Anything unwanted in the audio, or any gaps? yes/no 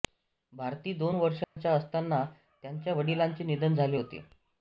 yes